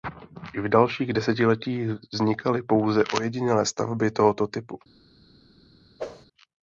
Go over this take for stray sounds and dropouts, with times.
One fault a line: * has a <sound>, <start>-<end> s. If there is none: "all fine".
* has a whoosh, 6.0-6.3 s